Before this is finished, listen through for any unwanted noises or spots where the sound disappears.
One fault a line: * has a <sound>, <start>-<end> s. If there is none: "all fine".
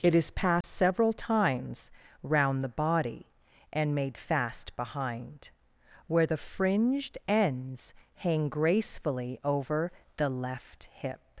* has a dropout, 0.6-0.6 s